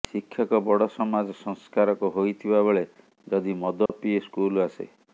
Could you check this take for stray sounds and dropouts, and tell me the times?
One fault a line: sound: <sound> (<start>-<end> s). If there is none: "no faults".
sound: dropout (3.9-3.9 s)